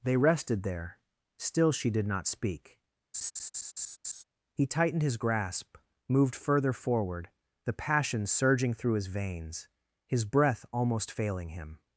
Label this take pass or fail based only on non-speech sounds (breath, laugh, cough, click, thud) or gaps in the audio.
fail